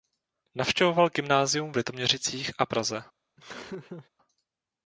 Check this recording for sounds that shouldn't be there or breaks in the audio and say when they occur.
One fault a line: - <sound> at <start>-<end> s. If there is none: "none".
- laugh at 3.4-4.1 s